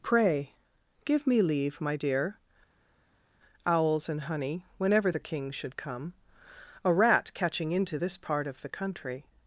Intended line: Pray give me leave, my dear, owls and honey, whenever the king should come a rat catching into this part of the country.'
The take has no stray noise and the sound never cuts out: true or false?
true